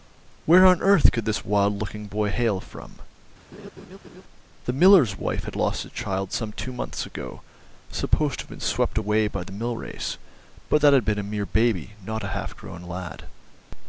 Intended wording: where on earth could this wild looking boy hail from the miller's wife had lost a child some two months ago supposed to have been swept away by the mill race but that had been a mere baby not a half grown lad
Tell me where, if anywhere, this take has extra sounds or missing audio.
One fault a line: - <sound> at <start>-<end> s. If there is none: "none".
- laugh at 3.5-4.2 s